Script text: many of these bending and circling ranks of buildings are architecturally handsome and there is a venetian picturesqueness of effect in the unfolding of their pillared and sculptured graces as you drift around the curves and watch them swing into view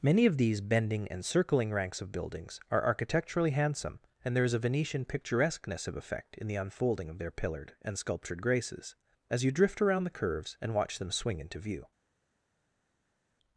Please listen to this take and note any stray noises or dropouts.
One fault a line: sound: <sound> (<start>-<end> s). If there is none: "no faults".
no faults